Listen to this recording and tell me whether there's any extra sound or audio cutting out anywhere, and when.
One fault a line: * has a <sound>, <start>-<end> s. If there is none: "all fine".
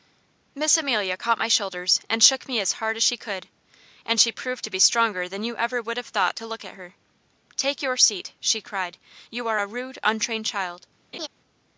* has a laugh, 11.1-11.3 s